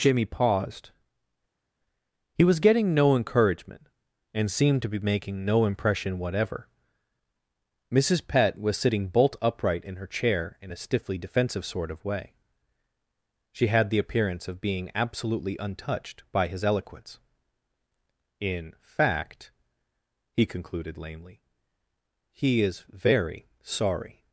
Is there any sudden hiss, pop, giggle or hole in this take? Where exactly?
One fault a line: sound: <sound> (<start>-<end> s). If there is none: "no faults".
no faults